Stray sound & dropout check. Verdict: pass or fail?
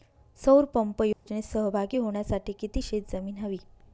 fail